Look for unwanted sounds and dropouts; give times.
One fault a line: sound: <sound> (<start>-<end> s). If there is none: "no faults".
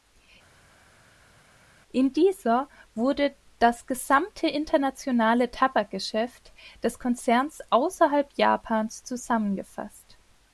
no faults